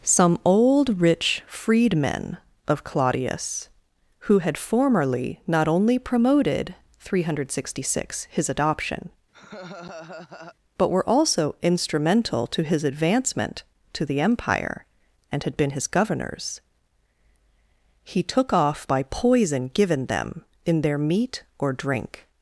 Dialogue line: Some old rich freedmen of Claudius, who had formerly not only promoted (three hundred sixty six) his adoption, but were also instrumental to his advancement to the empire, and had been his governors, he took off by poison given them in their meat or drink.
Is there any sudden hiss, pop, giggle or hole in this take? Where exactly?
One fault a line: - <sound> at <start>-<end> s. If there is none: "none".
- laugh at 9.3-10.6 s